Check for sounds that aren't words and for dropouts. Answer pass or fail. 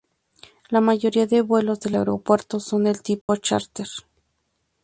fail